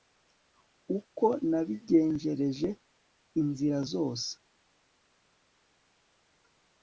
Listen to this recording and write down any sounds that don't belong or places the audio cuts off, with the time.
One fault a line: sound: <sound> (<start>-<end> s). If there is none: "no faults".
no faults